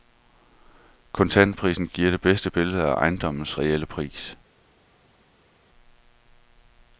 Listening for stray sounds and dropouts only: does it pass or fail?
pass